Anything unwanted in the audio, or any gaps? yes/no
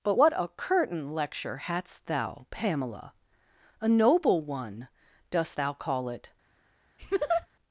yes